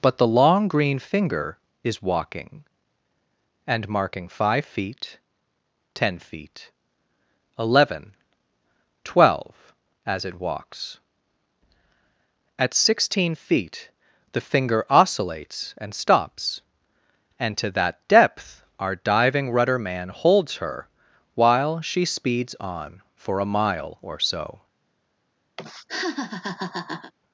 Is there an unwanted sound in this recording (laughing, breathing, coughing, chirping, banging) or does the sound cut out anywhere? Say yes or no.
yes